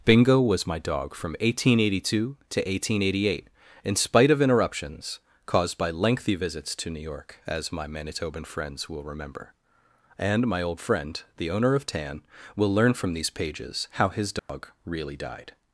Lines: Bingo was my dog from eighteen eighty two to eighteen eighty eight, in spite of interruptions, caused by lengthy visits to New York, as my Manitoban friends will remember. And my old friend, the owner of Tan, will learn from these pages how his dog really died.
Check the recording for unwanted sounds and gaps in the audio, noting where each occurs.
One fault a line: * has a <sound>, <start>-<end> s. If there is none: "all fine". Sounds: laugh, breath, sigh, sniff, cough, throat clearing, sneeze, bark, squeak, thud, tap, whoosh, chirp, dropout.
* has a dropout, 14.4-14.5 s